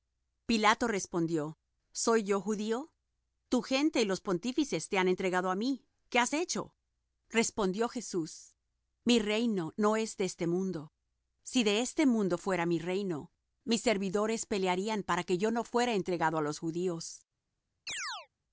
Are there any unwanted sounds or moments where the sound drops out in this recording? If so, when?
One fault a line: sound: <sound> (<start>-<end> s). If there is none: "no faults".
sound: chirp (17.9-18.3 s)